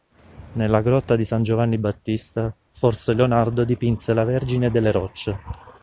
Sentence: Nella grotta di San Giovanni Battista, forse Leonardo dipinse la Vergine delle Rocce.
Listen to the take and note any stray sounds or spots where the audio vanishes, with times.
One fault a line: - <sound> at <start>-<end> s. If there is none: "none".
none